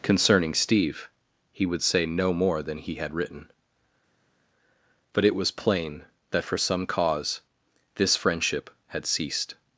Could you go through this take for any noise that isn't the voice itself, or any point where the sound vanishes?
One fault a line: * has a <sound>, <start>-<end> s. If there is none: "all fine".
all fine